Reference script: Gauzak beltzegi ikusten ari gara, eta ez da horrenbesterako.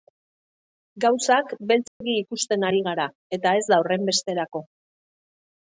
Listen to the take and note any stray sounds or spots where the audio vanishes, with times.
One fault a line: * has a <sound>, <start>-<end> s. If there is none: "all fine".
* has a dropout, 1.9-2.0 s